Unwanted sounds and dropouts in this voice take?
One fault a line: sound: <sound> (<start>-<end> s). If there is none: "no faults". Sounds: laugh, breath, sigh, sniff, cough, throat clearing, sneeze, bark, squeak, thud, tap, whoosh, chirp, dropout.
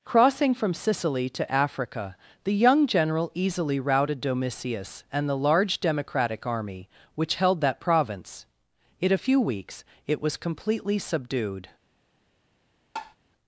sound: tap (13.0-13.2 s)